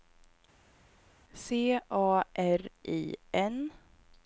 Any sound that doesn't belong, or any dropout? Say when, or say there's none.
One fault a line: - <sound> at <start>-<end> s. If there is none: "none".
none